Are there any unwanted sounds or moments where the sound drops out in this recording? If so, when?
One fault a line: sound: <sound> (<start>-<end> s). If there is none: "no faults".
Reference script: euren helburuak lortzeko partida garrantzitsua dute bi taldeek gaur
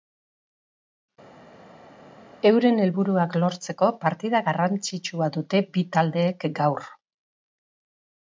no faults